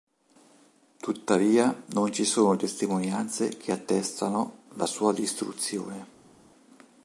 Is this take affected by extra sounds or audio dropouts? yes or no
no